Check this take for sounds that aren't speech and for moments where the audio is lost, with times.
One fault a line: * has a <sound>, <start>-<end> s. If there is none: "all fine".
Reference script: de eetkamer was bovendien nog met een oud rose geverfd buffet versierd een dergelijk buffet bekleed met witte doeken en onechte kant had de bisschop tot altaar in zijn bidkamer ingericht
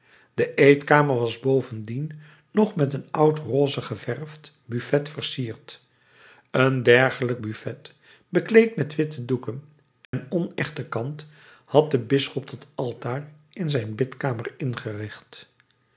* has a dropout, 10.0-10.1 s